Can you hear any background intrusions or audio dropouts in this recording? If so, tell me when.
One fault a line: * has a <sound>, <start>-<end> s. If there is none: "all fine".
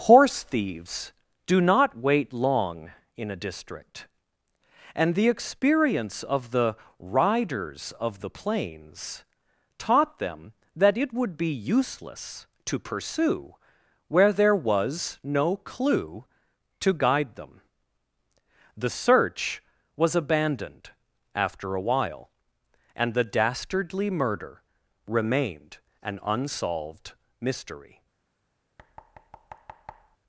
* has a thud, 28.8-30.2 s